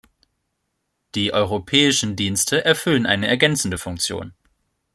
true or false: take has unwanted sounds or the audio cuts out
false